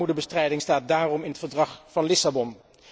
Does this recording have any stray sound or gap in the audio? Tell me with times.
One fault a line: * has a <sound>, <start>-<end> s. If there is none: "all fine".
all fine